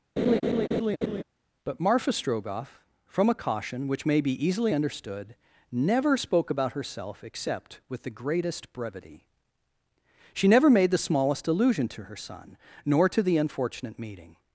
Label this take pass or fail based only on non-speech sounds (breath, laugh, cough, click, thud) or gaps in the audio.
fail